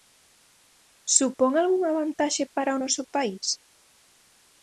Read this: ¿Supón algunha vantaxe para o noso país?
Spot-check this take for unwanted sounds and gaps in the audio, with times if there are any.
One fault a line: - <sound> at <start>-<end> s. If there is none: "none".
none